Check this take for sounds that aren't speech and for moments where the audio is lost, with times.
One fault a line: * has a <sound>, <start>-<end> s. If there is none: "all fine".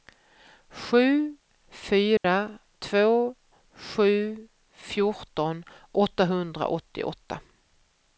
* has a dropout, 2.2-2.2 s